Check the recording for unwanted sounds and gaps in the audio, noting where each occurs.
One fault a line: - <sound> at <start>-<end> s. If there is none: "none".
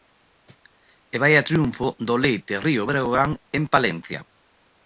none